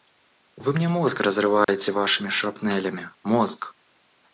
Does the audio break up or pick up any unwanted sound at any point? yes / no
yes